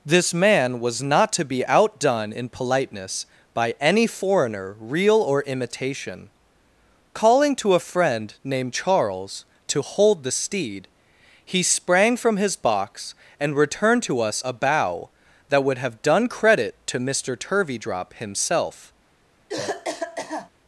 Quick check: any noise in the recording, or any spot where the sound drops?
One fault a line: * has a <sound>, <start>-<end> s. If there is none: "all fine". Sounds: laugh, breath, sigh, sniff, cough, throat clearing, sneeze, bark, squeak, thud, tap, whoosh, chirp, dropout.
* has a cough, 19.5-20.5 s